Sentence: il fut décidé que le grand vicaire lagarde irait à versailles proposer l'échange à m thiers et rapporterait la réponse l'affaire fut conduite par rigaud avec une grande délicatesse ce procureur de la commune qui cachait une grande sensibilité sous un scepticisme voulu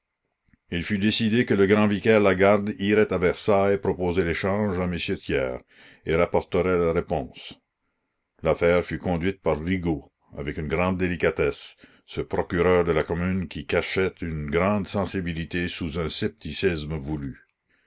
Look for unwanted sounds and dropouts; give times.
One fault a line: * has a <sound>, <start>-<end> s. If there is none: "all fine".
all fine